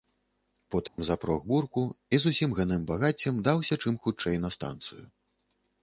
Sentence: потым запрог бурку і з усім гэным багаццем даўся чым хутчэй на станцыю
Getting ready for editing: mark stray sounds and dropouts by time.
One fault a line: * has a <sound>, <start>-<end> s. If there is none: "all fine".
* has a dropout, 0.9-1.0 s